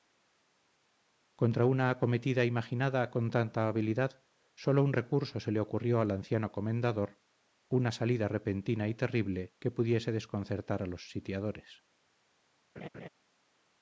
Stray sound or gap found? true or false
true